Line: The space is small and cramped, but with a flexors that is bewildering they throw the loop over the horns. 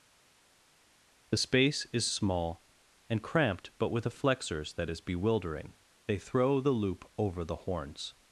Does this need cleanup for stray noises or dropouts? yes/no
no